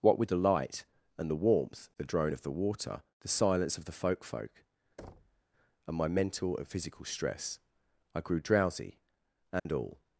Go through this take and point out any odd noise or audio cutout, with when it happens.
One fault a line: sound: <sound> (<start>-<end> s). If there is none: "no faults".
sound: thud (5.0-5.4 s)
sound: dropout (9.6-9.7 s)